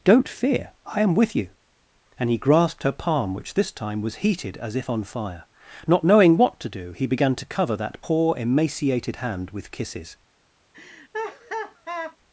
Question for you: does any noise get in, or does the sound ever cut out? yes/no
yes